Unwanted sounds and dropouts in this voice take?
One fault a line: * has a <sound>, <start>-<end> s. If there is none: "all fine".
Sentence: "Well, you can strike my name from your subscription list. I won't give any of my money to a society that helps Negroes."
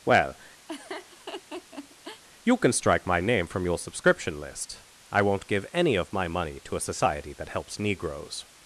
* has a laugh, 0.7-2.2 s